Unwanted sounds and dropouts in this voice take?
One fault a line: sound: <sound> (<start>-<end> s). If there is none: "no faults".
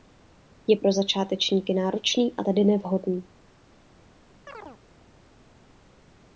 sound: chirp (4.5-4.8 s)